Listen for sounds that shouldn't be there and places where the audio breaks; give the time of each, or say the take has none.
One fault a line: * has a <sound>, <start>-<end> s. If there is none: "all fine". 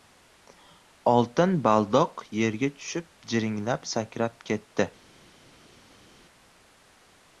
all fine